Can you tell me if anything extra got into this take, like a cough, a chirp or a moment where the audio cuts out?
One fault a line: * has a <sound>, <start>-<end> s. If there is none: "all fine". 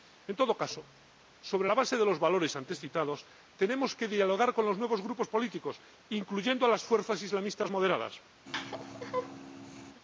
* has a laugh, 8.4-10.0 s